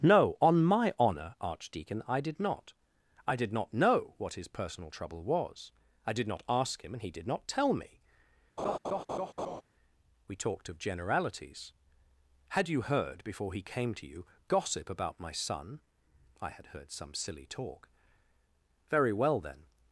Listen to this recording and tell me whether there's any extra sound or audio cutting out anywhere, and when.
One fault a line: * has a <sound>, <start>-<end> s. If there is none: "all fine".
* has a laugh, 8.6-9.6 s